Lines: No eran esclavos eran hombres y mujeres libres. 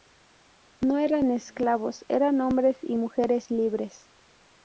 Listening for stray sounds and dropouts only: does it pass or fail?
pass